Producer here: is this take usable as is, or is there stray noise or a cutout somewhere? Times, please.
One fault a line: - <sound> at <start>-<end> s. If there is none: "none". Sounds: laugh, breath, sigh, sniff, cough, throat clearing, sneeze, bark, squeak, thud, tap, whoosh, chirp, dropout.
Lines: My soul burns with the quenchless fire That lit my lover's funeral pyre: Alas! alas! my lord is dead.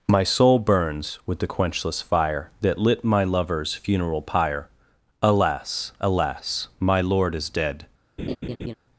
- laugh at 8.2-8.7 s